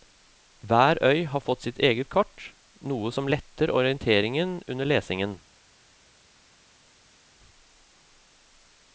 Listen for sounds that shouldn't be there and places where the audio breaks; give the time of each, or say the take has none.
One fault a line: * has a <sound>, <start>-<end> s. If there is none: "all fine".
all fine